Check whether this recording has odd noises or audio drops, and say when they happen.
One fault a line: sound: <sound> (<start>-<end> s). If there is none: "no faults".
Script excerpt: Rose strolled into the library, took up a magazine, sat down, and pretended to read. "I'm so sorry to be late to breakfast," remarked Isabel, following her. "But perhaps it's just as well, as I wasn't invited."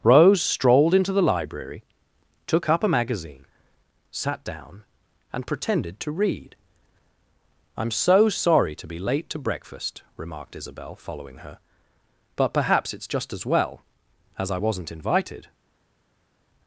no faults